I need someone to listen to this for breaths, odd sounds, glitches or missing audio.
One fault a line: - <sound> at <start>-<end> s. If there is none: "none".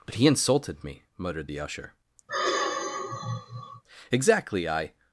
- sigh at 2.3-3.8 s